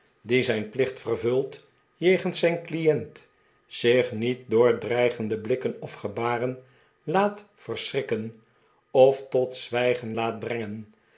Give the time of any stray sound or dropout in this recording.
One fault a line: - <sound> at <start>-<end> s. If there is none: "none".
none